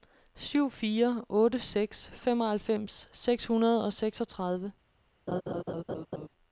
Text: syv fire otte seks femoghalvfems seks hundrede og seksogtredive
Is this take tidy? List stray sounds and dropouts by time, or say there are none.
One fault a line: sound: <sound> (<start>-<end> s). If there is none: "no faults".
sound: laugh (5.3-6.3 s)